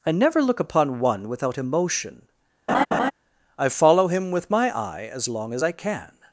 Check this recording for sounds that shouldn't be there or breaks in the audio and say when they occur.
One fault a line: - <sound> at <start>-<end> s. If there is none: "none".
- laugh at 2.7-3.1 s